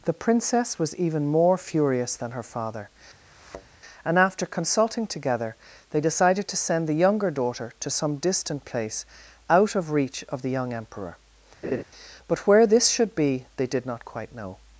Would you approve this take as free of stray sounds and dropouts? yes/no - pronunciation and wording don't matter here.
no